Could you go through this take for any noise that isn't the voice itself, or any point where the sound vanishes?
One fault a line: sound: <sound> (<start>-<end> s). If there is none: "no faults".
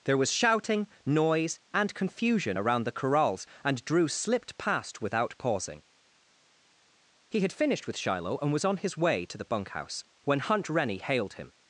no faults